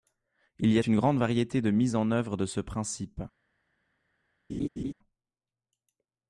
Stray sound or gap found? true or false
true